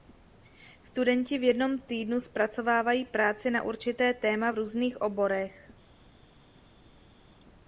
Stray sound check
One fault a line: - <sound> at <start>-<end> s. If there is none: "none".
none